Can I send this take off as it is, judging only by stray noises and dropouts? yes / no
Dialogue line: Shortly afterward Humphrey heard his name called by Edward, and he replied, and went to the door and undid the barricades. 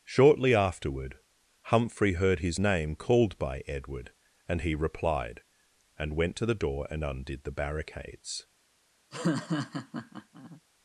no